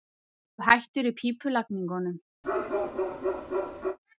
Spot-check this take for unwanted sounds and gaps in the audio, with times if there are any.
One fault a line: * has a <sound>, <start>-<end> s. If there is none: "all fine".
* has a bark, 2.4-4.0 s